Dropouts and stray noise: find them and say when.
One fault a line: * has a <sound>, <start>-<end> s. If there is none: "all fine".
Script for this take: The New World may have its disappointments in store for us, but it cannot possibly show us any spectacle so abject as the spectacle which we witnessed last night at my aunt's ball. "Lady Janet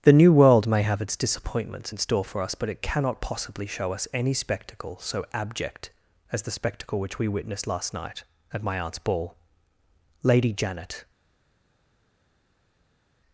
all fine